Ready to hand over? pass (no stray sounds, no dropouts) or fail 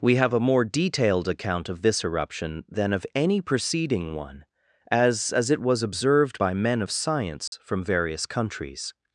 fail